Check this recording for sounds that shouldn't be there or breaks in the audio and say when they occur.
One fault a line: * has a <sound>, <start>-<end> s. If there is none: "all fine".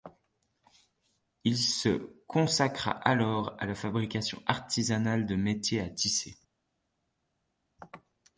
all fine